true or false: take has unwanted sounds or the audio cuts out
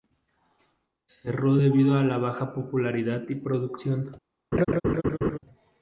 true